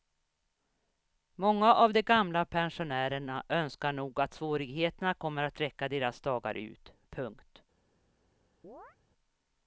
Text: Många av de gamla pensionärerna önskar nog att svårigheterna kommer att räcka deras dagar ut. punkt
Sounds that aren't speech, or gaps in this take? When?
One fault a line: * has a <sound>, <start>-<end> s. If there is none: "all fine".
* has a chirp, 8.6-9.0 s